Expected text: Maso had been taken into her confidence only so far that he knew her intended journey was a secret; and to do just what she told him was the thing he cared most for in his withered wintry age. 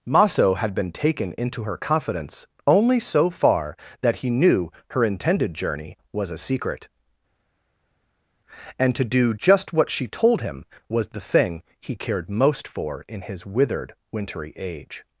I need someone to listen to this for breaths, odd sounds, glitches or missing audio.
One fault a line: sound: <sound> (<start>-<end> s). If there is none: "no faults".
no faults